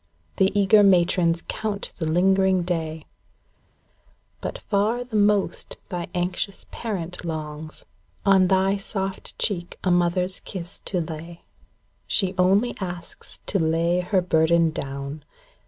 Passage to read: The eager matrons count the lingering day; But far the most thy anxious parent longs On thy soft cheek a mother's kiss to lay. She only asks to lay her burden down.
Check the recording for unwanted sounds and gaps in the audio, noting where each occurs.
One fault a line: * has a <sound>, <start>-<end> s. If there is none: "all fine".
all fine